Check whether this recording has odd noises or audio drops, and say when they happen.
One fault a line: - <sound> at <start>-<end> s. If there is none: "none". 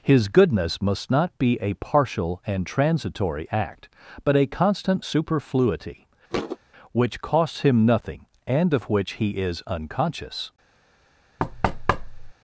- thud at 6.3-6.6 s
- thud at 11.4-12.3 s